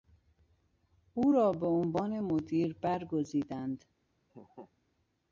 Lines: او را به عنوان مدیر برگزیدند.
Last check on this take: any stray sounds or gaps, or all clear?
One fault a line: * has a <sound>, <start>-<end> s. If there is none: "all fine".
* has a laugh, 4.3-4.7 s